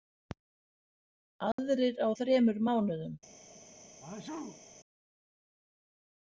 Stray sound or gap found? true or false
true